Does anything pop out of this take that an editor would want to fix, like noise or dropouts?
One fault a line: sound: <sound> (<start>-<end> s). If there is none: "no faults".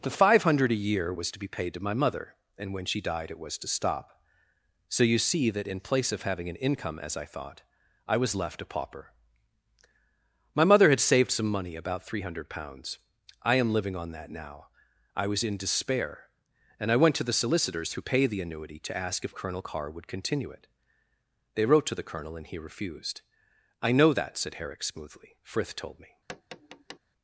sound: tap (26.3-27.0 s)